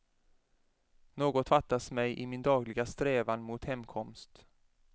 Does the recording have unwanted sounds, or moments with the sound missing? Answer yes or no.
no